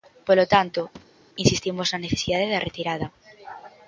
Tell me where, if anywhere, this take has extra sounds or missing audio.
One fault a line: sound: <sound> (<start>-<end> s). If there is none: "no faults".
sound: thud (0.9-1.3 s)